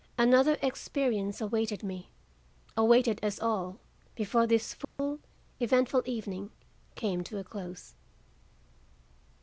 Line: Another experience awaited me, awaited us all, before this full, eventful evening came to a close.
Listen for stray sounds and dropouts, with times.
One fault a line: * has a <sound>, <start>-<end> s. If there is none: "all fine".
* has a dropout, 4.8-5.0 s